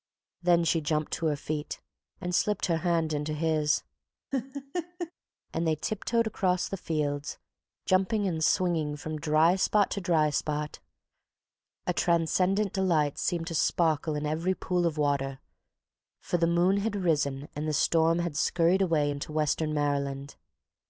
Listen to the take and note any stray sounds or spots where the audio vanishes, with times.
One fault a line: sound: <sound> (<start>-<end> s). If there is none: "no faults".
sound: laugh (4.3-5.1 s)